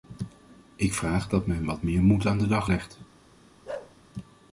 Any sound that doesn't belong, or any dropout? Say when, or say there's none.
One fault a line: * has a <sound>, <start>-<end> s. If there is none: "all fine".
* has a bark, 3.7-4.0 s